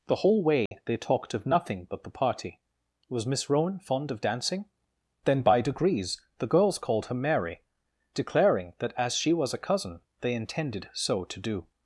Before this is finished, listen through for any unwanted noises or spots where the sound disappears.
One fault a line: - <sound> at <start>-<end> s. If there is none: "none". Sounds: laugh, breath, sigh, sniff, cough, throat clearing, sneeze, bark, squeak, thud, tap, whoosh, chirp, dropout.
- dropout at 0.7-0.7 s